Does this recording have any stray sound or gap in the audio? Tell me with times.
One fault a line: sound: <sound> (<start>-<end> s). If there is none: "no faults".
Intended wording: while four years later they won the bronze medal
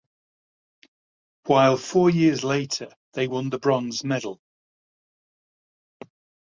no faults